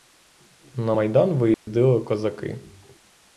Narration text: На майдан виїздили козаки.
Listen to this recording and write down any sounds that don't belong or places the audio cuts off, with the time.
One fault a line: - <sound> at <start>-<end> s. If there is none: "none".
- dropout at 1.5-1.7 s